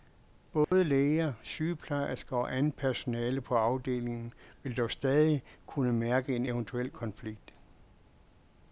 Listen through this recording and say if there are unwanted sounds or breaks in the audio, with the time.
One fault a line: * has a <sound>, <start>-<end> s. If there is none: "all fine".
* has a dropout, 0.6-0.7 s